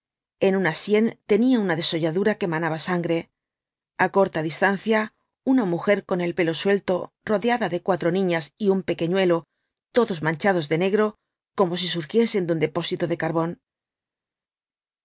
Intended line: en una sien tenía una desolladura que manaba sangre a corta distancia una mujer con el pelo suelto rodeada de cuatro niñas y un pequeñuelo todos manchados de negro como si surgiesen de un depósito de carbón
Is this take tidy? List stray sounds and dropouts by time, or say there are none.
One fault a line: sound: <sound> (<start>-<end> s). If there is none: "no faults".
no faults